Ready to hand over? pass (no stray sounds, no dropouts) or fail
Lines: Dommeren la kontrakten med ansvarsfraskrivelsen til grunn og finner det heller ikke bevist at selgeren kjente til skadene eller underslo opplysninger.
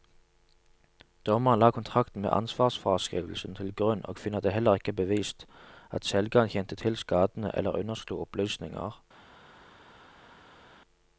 pass